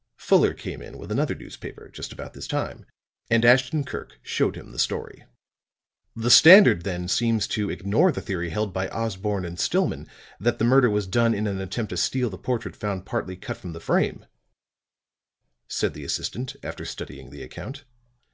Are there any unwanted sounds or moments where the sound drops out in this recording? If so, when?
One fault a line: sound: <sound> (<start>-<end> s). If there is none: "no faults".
no faults